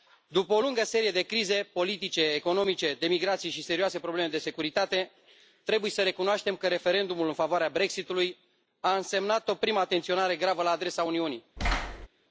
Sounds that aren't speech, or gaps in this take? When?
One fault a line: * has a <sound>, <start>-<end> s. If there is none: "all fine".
* has a thud, 11.6-12.1 s